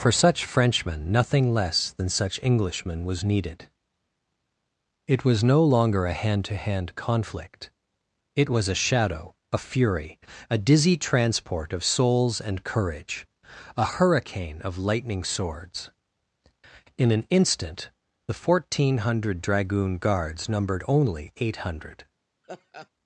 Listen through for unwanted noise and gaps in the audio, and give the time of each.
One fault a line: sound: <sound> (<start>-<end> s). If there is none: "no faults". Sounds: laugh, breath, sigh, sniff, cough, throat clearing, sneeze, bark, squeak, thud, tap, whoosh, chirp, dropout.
sound: laugh (22.4-22.9 s)